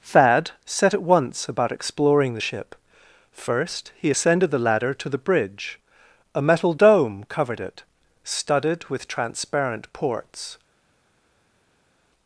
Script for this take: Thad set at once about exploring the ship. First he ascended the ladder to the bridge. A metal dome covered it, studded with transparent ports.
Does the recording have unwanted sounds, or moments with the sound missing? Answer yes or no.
no